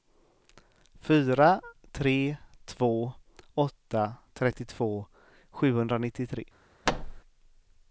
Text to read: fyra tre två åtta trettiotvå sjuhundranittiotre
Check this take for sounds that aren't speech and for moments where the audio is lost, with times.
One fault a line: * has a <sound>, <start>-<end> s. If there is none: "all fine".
* has a thud, 6.9-7.2 s